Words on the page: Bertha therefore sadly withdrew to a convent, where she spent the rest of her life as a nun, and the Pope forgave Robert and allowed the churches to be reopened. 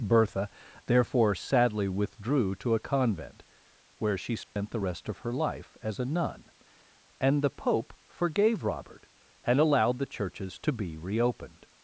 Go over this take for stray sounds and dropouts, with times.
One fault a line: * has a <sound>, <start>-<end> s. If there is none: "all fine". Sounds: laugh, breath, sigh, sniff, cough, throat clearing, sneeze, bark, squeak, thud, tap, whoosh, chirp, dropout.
* has a dropout, 4.4-4.6 s